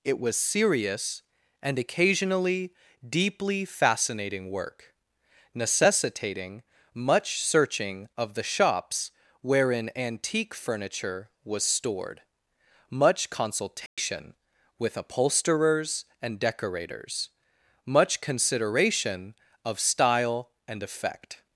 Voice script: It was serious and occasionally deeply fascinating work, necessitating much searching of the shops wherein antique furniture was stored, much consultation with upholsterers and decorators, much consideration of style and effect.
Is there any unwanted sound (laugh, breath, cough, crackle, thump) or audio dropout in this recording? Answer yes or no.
yes